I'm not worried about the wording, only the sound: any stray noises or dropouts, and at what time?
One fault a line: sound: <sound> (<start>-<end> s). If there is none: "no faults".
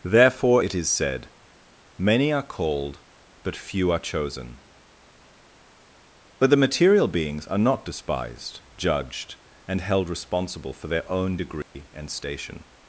sound: dropout (11.6-11.7 s)